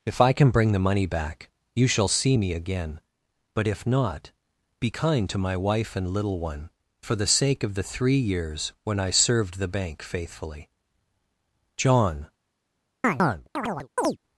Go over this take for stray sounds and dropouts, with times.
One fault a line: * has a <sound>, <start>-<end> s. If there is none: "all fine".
* has a chirp, 13.0-14.2 s